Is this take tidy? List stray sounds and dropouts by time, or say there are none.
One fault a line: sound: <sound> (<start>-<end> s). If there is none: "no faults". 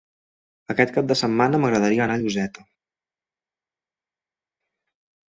no faults